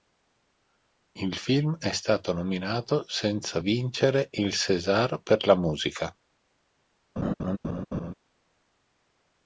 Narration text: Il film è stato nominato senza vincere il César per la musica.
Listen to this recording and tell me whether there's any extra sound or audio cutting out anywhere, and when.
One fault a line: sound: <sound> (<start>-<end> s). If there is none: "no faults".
sound: laugh (7.2-8.1 s)